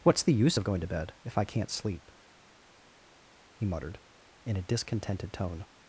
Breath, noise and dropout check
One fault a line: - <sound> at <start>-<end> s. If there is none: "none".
none